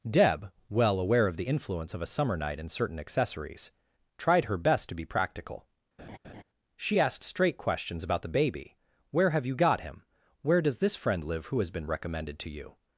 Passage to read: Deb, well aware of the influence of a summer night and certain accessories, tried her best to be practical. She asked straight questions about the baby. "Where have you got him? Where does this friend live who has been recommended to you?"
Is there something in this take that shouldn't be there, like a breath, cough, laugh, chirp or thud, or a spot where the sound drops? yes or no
yes